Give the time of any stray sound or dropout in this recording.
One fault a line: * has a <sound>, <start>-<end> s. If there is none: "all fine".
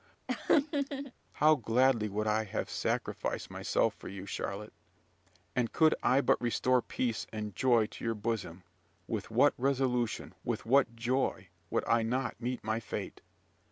* has a laugh, 0.3-1.1 s